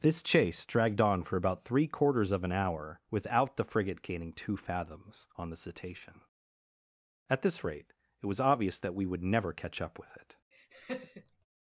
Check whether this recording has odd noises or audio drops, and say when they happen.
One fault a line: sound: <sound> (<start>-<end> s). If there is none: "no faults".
sound: laugh (10.5-11.5 s)